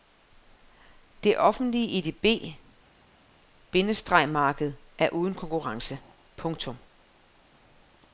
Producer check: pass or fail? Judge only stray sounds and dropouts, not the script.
pass